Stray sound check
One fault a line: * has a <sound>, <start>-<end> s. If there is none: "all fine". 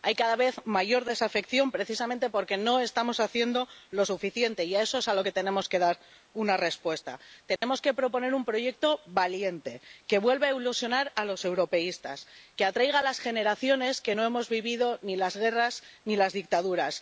* has a dropout, 7.6-7.6 s